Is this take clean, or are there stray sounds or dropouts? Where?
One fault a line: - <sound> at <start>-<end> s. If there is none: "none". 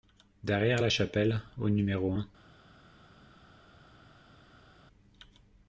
none